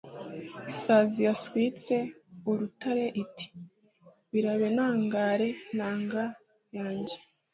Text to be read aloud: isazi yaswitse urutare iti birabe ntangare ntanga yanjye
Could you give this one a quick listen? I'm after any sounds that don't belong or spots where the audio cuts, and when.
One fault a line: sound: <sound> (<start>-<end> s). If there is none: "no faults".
no faults